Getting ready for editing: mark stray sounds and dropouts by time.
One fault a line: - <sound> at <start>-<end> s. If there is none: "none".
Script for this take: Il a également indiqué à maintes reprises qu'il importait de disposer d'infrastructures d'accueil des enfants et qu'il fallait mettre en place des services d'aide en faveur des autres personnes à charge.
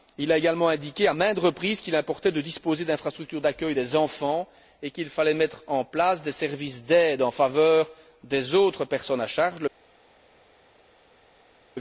none